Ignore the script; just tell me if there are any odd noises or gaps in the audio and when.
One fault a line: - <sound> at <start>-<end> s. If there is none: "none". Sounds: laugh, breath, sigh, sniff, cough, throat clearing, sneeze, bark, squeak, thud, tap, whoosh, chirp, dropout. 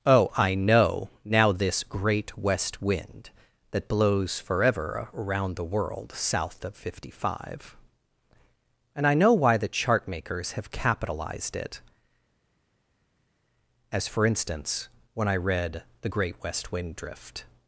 none